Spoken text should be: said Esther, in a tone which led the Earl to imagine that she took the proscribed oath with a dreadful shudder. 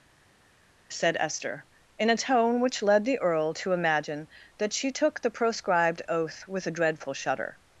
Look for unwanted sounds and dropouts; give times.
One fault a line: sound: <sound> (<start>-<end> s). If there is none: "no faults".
no faults